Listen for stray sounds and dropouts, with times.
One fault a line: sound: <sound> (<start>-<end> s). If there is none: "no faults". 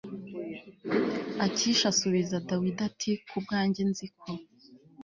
no faults